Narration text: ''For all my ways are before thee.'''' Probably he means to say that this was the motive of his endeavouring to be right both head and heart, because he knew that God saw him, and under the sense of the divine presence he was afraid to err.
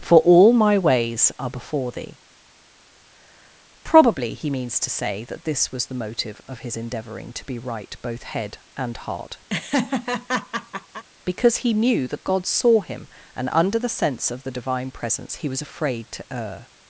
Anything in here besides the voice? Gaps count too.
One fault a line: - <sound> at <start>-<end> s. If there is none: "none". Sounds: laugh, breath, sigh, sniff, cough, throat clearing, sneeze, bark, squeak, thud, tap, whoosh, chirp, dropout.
- laugh at 9.5-11.0 s